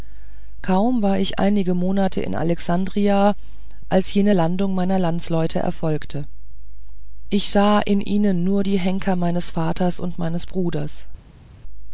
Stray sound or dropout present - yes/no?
no